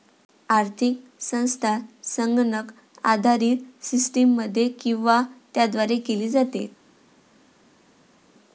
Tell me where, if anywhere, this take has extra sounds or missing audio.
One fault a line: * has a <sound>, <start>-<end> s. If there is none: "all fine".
all fine